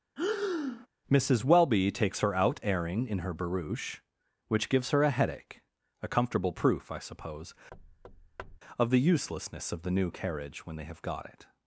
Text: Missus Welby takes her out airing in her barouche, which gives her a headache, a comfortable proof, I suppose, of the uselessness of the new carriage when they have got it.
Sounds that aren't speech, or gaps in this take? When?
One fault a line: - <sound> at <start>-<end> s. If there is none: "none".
- breath at 0.2-0.9 s
- thud at 7.7-8.6 s